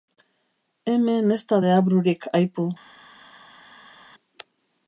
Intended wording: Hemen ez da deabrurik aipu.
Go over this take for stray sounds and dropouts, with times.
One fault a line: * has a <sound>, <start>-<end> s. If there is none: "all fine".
all fine